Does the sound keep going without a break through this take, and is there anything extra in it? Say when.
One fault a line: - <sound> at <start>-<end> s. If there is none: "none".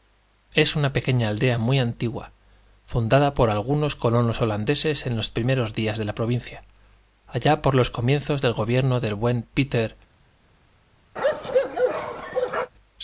- bark at 11.2-12.7 s